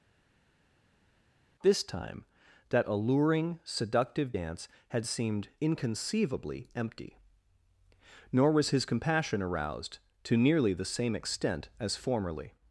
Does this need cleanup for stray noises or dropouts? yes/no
no